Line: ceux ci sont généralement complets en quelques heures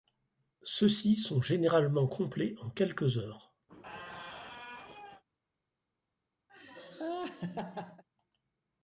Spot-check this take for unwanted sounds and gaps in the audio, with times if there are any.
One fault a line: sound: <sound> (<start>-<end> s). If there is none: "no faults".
sound: squeak (3.7-5.2 s)
sound: laugh (6.5-8.0 s)